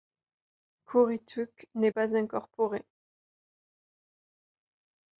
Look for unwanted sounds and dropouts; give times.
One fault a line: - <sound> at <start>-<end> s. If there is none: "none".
none